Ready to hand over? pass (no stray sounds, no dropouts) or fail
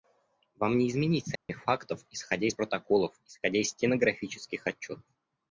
fail